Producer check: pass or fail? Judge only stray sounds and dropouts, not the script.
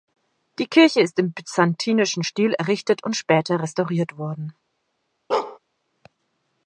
fail